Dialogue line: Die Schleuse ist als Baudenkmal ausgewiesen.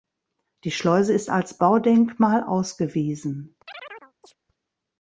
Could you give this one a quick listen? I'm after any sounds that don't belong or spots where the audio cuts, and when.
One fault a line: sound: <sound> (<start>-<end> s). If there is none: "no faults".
sound: chirp (3.7-4.4 s)